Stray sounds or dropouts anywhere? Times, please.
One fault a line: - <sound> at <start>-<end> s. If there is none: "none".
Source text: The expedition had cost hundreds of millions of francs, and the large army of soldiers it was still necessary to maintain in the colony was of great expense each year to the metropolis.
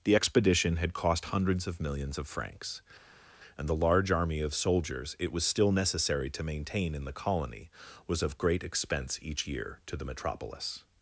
none